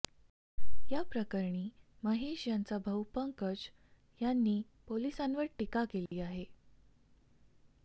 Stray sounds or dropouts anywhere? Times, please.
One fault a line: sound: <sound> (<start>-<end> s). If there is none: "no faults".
sound: dropout (6.1-6.1 s)